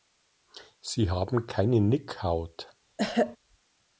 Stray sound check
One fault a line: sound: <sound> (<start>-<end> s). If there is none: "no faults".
sound: throat clearing (3.0-3.4 s)